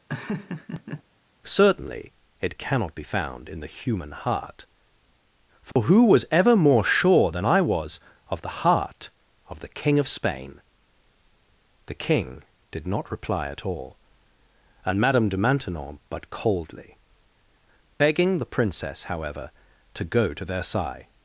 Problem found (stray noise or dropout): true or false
true